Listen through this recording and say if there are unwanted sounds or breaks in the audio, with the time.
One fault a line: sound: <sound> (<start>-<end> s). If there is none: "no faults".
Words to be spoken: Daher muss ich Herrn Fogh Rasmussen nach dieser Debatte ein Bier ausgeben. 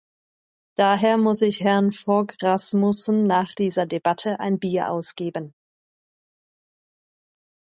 no faults